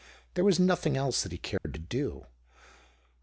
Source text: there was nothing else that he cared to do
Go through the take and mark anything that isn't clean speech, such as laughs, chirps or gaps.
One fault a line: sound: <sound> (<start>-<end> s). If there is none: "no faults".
sound: dropout (1.6-1.6 s)